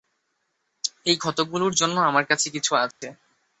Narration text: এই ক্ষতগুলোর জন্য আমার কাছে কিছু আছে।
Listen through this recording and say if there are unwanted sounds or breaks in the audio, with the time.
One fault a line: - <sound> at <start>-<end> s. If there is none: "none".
- dropout at 2.9-3.0 s